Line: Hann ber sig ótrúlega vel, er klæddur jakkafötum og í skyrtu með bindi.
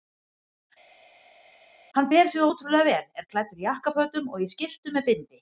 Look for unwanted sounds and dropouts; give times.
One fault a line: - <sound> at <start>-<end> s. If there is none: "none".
none